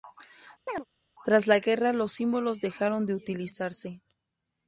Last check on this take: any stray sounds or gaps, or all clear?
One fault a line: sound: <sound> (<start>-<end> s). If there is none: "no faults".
sound: chirp (0.7-0.8 s)